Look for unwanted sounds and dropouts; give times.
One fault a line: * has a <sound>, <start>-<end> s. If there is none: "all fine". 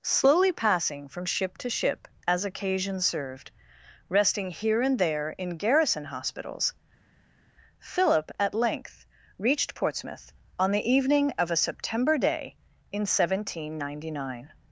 all fine